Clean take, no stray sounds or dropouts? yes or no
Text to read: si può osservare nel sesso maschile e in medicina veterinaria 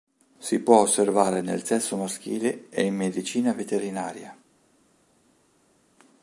yes